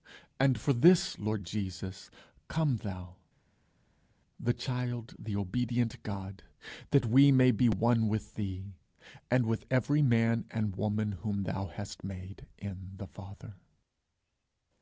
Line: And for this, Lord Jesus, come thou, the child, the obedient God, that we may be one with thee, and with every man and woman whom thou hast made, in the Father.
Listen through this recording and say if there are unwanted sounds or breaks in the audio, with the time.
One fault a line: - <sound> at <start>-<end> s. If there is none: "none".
none